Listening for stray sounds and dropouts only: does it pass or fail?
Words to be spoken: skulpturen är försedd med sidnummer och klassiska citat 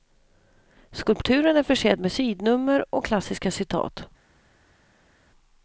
pass